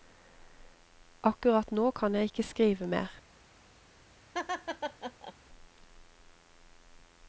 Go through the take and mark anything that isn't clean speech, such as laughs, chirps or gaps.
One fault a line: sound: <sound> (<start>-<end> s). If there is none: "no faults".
sound: laugh (4.3-5.3 s)